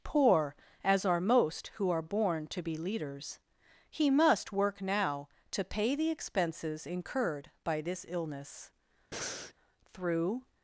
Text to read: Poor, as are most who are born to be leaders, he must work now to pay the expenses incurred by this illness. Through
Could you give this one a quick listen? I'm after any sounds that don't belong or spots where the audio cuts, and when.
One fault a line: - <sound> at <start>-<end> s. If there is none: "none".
- breath at 9.1-9.5 s